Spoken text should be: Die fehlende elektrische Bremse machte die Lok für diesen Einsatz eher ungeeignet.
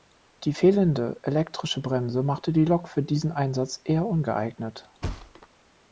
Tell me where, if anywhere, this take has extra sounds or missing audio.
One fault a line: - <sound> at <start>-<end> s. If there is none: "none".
- thud at 5.0-5.5 s